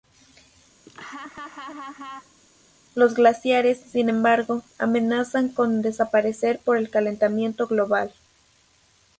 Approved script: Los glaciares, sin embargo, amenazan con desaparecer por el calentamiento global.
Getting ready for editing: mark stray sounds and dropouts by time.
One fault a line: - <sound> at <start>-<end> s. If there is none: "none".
- laugh at 0.9-2.4 s